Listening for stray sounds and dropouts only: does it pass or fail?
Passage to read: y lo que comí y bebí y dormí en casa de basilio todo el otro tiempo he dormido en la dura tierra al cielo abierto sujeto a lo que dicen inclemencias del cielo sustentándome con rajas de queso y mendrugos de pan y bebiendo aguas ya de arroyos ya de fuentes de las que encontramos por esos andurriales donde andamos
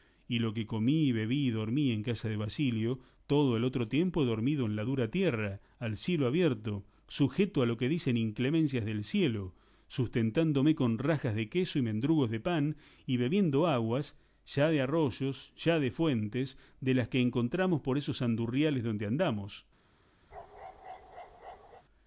fail